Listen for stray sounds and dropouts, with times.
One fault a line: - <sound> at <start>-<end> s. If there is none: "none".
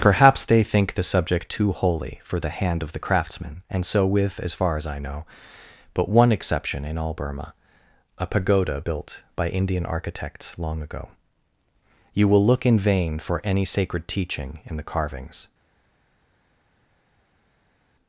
none